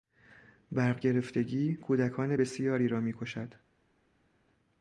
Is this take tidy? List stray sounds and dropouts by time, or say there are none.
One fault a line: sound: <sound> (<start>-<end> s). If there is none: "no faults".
no faults